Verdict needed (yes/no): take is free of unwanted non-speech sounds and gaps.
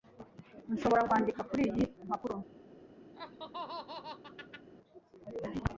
no